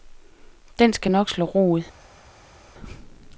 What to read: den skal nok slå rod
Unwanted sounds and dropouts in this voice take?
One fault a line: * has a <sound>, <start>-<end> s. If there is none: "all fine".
all fine